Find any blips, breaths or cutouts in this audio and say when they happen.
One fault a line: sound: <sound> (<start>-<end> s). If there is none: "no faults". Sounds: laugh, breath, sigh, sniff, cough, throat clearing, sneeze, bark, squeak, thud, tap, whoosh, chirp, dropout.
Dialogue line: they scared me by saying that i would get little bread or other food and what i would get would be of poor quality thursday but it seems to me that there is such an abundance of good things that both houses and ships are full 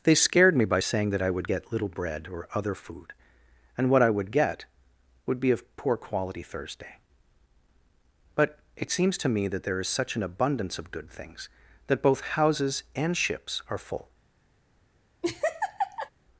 sound: laugh (15.2-16.1 s)